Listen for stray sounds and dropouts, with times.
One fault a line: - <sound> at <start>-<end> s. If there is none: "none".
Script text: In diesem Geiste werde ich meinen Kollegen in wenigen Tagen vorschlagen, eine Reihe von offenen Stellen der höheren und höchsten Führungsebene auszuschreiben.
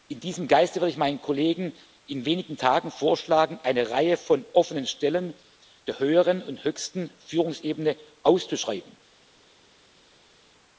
none